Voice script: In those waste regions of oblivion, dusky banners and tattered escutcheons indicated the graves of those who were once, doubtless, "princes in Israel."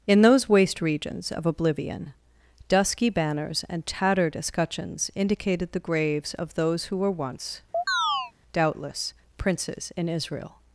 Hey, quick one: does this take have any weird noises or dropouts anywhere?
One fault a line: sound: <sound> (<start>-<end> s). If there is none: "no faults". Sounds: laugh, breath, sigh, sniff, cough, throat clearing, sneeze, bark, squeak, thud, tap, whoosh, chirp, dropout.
sound: chirp (7.7-8.3 s)